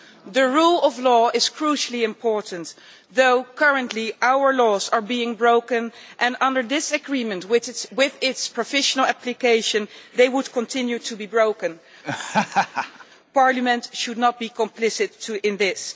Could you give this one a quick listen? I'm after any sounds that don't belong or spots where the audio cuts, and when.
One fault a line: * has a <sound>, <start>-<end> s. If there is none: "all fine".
* has a laugh, 12.0-13.1 s